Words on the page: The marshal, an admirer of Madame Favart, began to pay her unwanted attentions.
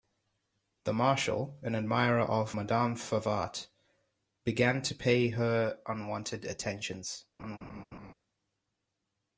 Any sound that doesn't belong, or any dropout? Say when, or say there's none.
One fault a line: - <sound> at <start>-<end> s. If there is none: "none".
- laugh at 7.4-8.1 s